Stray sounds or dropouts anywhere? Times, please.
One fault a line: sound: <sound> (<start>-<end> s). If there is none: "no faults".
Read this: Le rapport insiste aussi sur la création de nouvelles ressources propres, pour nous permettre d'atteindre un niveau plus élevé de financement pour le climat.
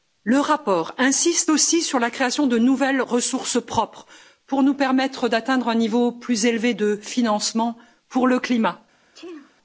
sound: sneeze (9.1-9.6 s)